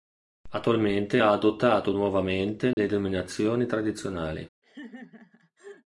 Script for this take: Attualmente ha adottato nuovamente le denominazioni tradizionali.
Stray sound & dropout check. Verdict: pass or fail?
fail